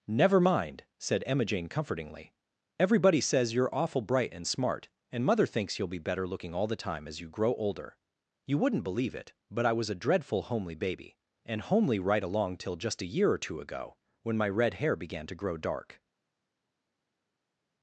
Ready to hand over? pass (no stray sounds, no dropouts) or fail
pass